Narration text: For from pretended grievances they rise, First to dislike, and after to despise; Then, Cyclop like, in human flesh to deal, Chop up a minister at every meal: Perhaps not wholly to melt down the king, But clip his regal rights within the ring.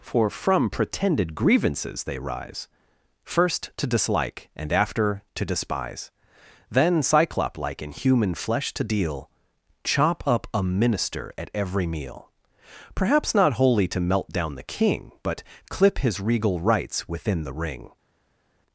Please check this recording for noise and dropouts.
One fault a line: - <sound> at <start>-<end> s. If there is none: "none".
none